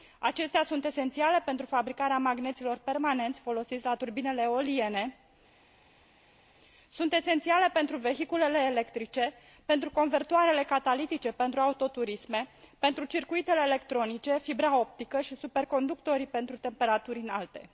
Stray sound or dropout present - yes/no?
no